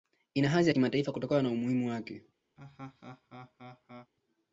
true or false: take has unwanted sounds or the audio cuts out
true